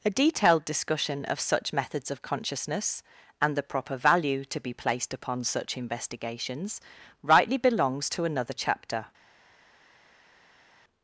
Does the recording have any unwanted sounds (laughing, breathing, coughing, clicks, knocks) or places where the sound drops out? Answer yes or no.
no